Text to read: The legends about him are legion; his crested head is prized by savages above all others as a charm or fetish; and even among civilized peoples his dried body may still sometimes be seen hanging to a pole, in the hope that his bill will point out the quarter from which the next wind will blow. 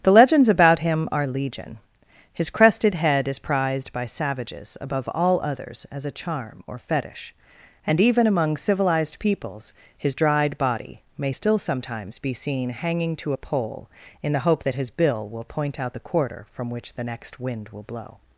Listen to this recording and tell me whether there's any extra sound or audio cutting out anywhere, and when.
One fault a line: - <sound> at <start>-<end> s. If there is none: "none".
none